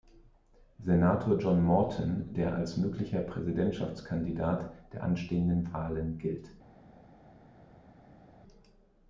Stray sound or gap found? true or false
false